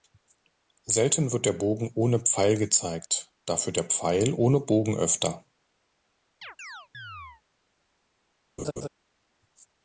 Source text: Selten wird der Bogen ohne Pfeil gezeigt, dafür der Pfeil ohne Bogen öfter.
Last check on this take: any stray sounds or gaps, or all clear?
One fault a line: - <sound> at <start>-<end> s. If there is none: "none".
- chirp at 6.4-7.4 s
- laugh at 8.6-8.9 s